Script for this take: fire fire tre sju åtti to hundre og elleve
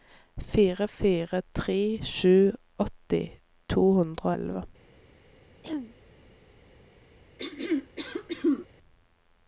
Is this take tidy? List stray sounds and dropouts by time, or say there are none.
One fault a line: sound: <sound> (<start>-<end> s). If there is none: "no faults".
sound: throat clearing (5.6-6.0 s)
sound: throat clearing (7.4-8.7 s)